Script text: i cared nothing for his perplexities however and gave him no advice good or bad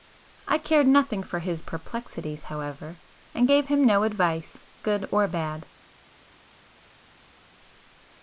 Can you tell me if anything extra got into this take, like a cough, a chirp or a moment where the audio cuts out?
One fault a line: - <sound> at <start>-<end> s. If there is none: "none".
none